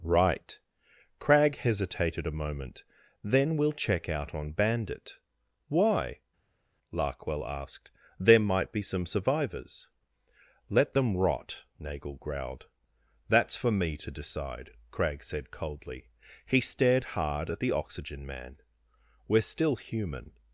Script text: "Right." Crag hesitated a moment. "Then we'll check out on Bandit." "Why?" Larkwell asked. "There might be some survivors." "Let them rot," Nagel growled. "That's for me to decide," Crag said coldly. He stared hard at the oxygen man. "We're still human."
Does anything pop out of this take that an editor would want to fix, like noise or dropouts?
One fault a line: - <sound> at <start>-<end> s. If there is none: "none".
none